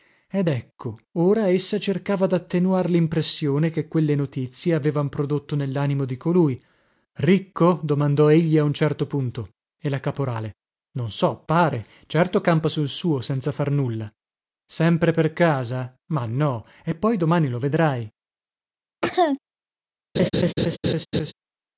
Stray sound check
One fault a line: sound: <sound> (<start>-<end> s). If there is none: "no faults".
sound: cough (19.0-19.4 s)
sound: laugh (20.1-21.3 s)